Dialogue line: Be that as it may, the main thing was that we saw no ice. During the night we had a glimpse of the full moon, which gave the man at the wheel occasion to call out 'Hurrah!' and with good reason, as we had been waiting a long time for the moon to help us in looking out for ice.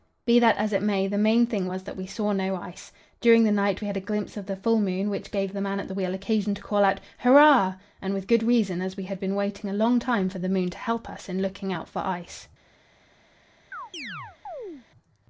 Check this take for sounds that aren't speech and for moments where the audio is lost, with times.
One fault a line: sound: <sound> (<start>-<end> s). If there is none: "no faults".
sound: chirp (13.7-14.9 s)